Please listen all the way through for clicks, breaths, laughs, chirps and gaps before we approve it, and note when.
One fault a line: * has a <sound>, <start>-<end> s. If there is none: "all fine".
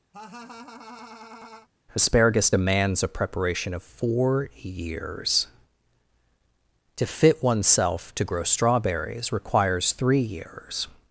* has a laugh, 0.1-1.7 s